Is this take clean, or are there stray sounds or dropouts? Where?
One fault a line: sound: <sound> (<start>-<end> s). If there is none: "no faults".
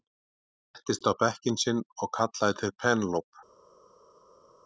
no faults